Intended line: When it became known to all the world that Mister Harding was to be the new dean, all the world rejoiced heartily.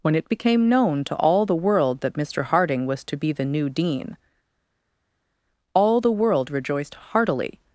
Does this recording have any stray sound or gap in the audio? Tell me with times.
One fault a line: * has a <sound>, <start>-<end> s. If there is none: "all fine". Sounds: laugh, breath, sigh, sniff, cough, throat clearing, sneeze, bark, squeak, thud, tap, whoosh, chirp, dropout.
all fine